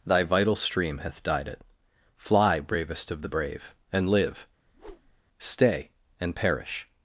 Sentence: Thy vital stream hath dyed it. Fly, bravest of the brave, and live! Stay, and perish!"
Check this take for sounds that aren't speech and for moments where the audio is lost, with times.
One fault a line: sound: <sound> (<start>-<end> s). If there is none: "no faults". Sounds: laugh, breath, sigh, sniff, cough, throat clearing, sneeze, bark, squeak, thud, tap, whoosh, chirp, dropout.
sound: whoosh (4.7-5.2 s)